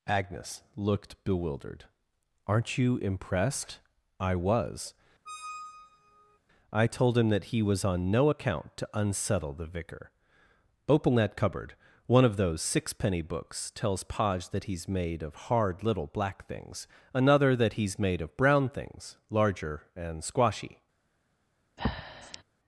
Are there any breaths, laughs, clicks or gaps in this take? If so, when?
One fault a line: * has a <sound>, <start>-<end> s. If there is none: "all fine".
* has a squeak, 5.3-6.4 s
* has a breath, 21.8-22.4 s